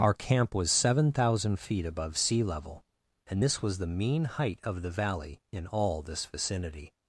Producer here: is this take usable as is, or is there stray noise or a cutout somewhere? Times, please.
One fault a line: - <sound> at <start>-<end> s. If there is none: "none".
none